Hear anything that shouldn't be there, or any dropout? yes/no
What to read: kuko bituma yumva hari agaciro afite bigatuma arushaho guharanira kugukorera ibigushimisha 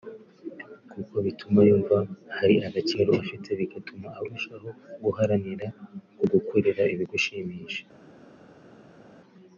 no